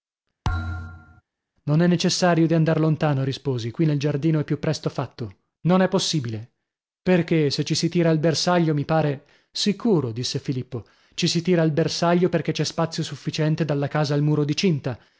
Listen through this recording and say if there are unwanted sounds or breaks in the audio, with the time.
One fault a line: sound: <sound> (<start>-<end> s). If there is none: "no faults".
sound: thud (0.4-1.2 s)